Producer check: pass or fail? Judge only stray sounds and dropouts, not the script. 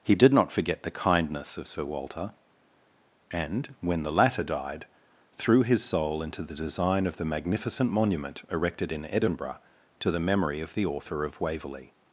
pass